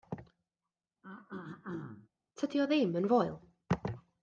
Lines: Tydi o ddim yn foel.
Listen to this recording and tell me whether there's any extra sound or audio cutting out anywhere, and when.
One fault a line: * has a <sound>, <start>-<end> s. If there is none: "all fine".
* has a throat clearing, 1.0-2.1 s